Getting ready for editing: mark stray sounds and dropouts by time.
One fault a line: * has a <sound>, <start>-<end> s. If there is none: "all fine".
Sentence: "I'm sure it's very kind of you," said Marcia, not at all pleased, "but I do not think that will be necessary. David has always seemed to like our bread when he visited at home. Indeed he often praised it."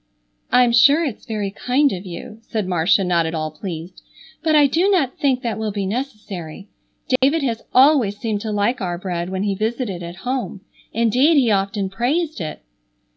* has a dropout, 7.2-7.2 s